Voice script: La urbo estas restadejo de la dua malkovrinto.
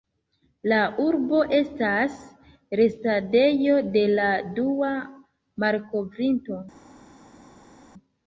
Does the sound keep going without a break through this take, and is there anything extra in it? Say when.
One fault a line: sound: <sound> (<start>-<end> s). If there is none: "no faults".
no faults